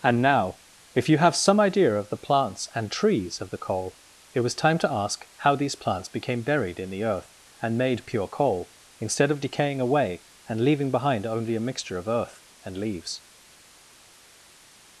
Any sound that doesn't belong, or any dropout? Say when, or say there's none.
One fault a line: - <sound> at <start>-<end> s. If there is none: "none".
none